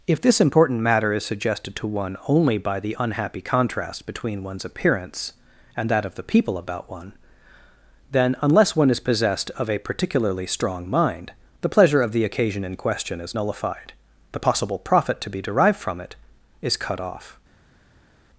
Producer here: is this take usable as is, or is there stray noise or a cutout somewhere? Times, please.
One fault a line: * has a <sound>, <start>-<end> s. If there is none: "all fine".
all fine